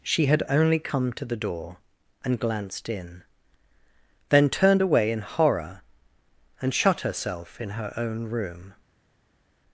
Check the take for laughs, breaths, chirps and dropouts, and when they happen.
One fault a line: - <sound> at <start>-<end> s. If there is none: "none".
none